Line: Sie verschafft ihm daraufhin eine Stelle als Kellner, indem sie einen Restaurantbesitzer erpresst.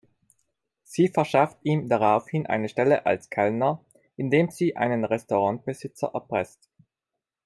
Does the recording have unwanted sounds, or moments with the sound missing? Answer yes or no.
no